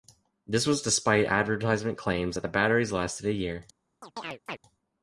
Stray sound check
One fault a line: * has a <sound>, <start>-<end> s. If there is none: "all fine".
* has a chirp, 4.0-4.6 s